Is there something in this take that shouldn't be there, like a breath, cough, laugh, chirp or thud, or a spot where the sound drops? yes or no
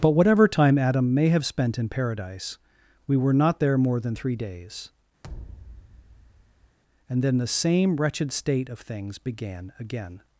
yes